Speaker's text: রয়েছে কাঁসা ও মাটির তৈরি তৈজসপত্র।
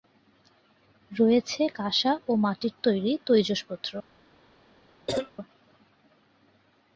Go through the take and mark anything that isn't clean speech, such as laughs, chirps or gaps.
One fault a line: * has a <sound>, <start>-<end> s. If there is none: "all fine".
* has a cough, 5.1-5.3 s